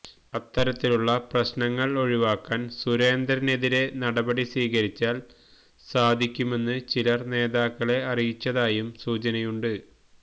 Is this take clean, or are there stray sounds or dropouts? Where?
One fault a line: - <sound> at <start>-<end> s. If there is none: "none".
none